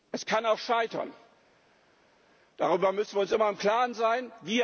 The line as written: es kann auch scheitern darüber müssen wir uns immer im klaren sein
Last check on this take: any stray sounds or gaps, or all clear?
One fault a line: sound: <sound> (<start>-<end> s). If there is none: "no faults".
no faults